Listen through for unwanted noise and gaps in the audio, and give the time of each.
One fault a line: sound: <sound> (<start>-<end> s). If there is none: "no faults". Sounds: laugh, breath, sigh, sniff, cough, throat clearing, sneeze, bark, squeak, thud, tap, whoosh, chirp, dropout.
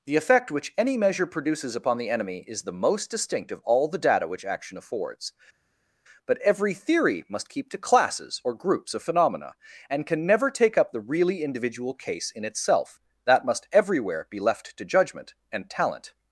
no faults